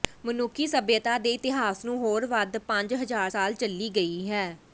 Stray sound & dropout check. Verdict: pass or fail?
pass